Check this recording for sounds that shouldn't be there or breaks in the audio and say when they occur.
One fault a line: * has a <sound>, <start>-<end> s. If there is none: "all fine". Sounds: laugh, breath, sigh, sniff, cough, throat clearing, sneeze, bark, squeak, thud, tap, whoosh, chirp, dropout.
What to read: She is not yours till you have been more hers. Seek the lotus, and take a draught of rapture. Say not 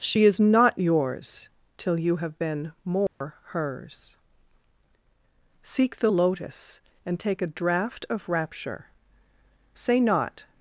* has a dropout, 3.1-3.2 s